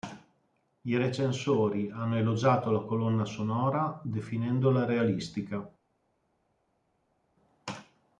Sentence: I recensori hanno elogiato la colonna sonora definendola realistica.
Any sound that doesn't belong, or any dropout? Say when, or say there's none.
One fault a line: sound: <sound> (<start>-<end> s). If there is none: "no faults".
no faults